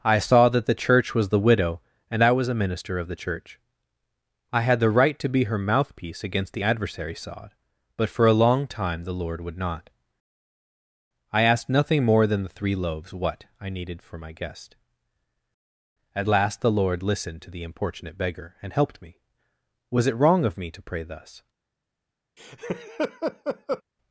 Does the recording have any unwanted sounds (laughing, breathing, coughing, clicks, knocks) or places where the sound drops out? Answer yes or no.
yes